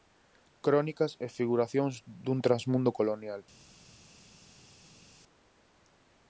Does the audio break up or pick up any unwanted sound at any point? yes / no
no